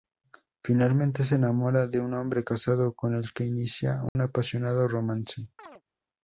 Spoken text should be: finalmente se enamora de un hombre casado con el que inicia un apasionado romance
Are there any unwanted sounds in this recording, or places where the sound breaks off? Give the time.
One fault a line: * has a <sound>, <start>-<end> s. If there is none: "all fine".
* has a dropout, 4.1-4.2 s
* has a chirp, 5.6-5.8 s